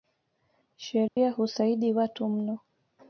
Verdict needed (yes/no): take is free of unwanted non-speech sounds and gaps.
no